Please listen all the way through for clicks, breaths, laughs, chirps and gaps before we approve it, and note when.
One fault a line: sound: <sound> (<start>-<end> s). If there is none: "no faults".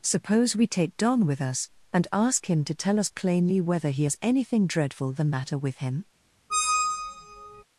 sound: squeak (6.5-7.6 s)